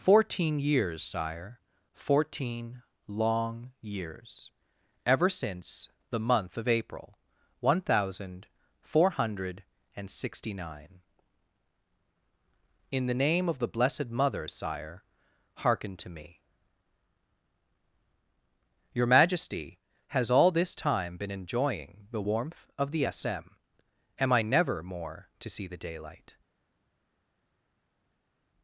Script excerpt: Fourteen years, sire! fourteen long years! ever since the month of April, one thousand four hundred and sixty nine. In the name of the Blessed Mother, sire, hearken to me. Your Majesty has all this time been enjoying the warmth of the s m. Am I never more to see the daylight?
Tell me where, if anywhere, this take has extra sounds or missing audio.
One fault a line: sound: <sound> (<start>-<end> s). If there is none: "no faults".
no faults